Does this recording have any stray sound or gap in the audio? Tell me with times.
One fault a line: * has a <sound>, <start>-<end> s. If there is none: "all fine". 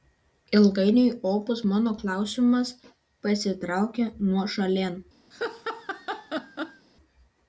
* has a laugh, 5.3-6.9 s